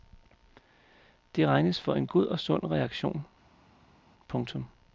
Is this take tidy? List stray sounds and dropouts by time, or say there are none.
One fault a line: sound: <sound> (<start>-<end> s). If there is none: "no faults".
no faults